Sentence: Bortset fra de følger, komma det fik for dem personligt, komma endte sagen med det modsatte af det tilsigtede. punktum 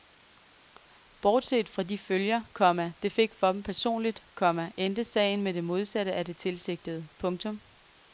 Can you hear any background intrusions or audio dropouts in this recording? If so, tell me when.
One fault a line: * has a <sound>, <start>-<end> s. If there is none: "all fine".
all fine